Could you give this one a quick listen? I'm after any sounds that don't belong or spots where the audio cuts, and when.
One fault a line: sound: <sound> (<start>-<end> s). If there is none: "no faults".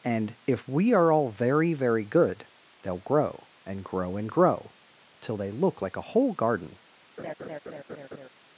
sound: laugh (7.2-8.3 s)